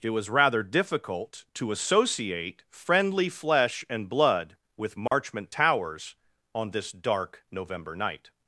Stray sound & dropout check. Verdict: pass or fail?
fail